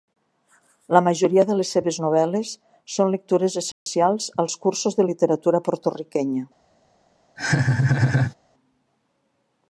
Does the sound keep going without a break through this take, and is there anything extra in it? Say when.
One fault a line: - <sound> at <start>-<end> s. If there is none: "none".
- dropout at 3.7-3.9 s
- laugh at 7.4-8.3 s